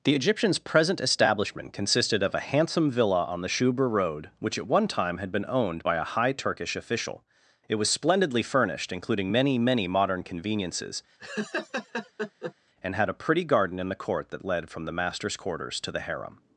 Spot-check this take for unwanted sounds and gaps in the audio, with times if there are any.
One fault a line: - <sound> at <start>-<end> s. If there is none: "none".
- laugh at 11.2-12.5 s